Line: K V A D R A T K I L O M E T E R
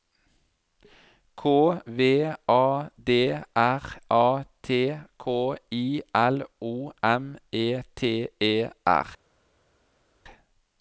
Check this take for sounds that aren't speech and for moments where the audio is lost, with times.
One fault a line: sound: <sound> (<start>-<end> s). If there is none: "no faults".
no faults